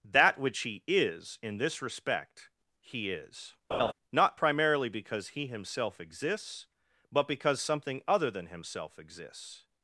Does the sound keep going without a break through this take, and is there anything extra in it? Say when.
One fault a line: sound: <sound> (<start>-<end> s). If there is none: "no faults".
sound: laugh (3.7-3.9 s)